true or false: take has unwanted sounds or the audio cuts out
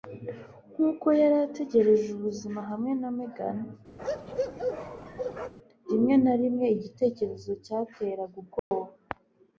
true